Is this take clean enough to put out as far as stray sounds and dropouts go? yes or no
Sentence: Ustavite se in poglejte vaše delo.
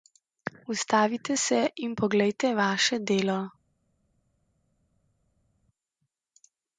yes